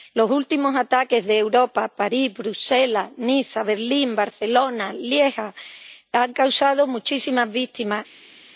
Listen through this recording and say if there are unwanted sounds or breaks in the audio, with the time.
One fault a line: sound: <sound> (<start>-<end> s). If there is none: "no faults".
no faults